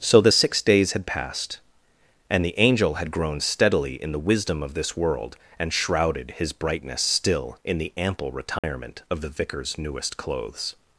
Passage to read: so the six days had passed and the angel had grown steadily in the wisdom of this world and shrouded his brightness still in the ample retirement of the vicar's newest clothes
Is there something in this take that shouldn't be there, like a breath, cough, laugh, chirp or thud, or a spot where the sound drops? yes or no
yes